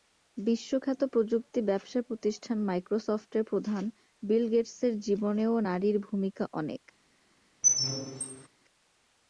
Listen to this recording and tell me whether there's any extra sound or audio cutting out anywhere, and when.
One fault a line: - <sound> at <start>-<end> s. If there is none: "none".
- squeak at 7.6-8.5 s